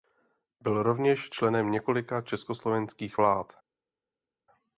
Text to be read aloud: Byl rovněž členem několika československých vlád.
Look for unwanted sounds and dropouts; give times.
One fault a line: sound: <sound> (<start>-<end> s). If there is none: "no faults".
no faults